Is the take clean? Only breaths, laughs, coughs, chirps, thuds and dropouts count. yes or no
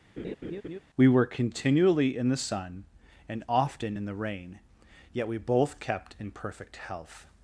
no